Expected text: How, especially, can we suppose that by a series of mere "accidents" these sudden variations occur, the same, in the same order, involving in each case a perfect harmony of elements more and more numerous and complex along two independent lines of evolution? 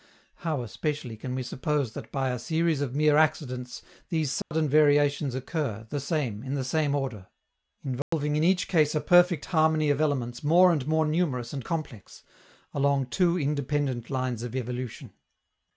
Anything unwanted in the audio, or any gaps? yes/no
yes